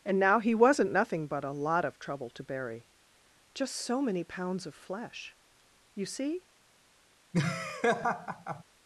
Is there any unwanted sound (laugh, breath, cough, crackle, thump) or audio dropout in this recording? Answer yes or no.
yes